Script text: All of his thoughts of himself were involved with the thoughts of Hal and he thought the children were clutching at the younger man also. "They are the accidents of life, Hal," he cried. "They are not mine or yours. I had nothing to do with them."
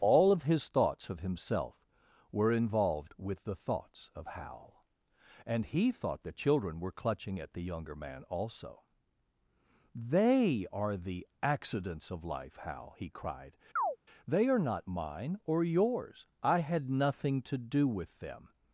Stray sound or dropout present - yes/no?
yes